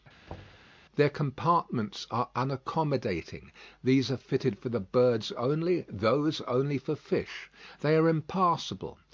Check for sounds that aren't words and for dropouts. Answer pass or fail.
fail